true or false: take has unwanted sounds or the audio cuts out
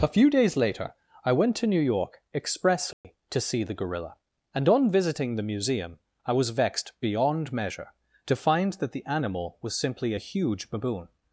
true